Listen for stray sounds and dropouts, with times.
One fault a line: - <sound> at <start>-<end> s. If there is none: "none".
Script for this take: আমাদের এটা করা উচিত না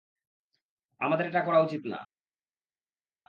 none